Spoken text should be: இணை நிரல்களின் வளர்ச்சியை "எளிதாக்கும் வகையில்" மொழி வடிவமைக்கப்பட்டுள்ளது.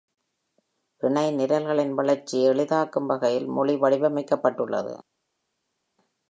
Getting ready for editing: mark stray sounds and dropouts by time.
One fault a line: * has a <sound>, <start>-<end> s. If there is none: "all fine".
all fine